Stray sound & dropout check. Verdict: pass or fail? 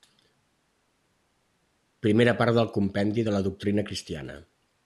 pass